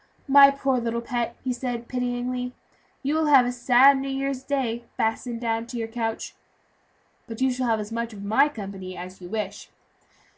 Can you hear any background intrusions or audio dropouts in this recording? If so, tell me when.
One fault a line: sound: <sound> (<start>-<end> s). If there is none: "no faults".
no faults